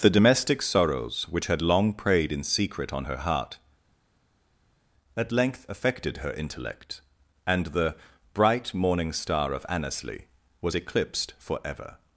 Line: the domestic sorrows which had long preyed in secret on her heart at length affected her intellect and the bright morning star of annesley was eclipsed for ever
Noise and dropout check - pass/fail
pass